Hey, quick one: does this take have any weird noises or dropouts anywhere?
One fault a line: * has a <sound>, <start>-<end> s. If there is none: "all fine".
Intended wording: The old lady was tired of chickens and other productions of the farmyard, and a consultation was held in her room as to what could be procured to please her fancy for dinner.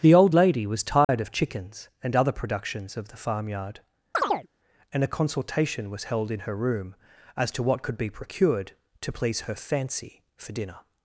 * has a dropout, 1.0-1.1 s
* has a chirp, 4.1-4.5 s